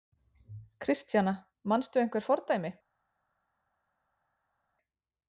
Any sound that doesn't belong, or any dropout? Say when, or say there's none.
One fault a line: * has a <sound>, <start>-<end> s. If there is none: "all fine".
all fine